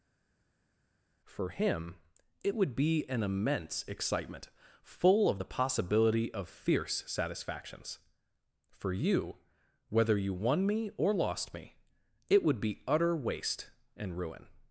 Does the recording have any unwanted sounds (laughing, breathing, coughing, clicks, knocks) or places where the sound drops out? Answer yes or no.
no